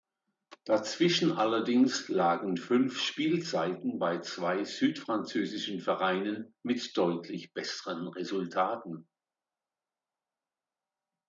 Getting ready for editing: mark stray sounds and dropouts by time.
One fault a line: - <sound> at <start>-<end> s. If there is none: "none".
none